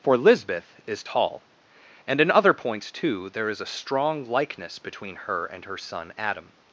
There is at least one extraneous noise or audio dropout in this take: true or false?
false